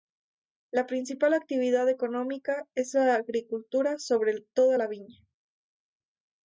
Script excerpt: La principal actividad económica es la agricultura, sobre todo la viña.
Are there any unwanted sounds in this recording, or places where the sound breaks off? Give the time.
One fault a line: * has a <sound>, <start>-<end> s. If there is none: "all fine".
all fine